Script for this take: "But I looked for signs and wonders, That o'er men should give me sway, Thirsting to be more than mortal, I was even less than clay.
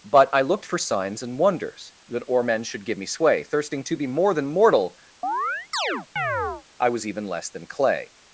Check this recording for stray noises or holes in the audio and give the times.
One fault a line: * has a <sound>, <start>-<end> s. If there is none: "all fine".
* has a chirp, 5.2-6.6 s